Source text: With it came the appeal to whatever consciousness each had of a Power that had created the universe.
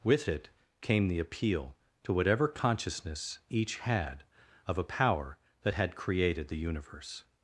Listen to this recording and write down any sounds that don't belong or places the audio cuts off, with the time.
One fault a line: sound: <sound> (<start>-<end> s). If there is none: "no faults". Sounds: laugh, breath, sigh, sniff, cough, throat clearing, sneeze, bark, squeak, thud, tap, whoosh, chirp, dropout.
no faults